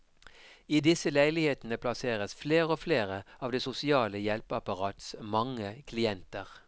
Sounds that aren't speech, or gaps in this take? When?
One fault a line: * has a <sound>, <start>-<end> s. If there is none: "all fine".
all fine